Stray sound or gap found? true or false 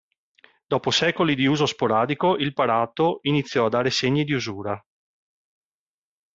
false